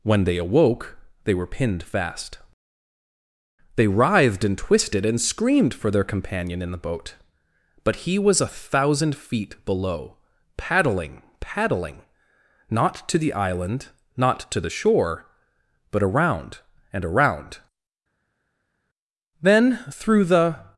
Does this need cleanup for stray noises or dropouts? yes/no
no